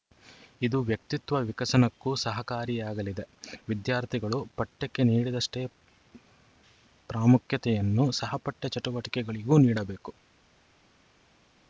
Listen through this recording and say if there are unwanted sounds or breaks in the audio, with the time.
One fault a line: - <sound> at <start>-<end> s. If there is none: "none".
none